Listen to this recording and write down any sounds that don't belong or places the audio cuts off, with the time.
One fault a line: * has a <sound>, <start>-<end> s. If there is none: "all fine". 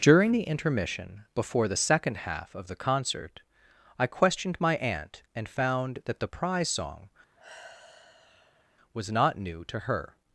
* has a sigh, 7.4-8.8 s